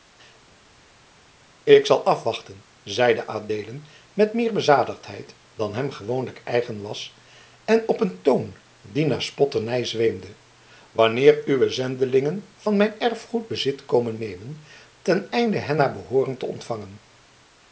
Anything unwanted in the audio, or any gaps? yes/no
no